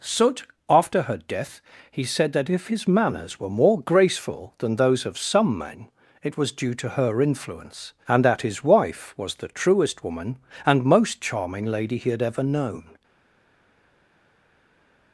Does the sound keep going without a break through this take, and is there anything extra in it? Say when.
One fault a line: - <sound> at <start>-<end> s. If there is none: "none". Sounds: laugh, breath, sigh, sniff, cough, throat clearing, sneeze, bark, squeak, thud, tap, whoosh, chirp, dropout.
none